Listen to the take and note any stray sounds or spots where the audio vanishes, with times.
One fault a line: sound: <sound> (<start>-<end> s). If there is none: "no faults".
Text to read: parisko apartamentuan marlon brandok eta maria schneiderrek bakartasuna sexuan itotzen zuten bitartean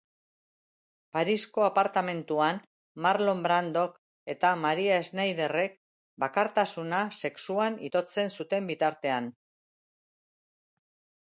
no faults